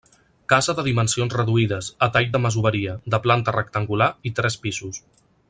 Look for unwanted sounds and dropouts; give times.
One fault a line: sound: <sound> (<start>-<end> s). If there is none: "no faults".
no faults